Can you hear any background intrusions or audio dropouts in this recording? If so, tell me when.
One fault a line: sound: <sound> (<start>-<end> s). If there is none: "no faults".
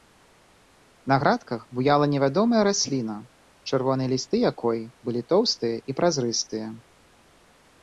no faults